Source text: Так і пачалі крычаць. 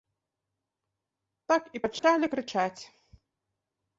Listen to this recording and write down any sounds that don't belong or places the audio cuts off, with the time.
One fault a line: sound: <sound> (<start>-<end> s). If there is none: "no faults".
sound: dropout (2.0-2.0 s)